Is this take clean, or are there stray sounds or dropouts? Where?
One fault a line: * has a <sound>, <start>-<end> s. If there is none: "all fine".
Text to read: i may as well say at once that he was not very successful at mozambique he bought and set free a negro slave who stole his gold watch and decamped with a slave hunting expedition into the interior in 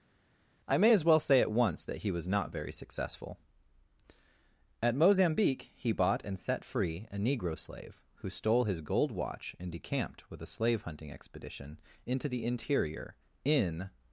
all fine